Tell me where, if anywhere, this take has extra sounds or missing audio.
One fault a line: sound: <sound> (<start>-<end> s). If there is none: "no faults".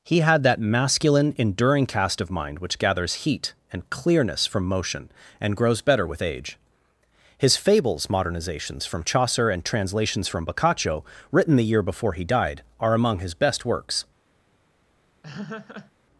sound: laugh (15.2-15.9 s)